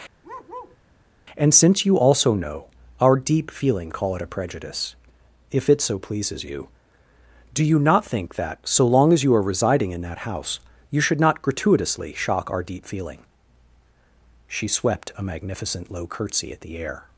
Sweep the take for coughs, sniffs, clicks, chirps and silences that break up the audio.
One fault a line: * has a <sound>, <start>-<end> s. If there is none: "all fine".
* has a bark, 0.2-0.8 s